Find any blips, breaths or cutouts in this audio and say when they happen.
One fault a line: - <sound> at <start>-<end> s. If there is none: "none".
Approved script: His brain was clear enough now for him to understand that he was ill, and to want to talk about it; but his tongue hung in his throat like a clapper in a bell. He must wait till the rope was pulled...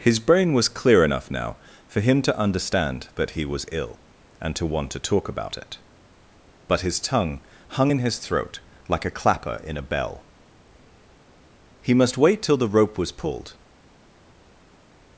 none